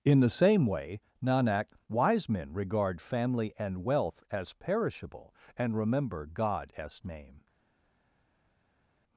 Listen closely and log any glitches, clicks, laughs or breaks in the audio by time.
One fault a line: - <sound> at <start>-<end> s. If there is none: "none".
none